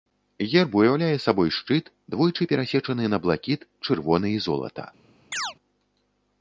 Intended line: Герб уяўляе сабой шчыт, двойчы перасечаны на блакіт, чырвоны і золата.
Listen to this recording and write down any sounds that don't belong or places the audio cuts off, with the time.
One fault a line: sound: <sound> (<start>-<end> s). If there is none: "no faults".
sound: chirp (5.3-5.5 s)